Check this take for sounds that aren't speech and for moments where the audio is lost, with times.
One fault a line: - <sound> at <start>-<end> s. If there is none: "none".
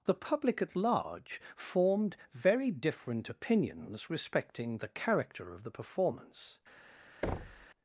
- thud at 7.2-7.7 s